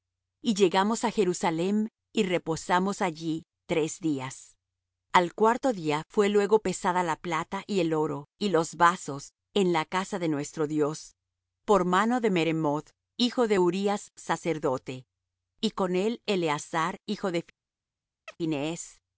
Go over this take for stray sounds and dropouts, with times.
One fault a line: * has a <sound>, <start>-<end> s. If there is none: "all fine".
* has a chirp, 18.3-18.4 s